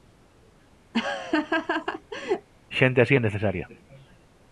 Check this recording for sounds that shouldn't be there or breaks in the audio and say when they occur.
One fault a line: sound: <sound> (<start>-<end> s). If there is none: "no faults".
sound: laugh (0.9-2.5 s)